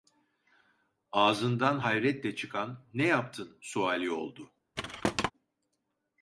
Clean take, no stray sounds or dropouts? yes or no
no